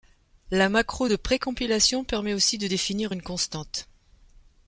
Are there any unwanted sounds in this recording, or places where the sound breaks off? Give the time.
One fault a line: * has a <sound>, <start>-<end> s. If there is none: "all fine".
all fine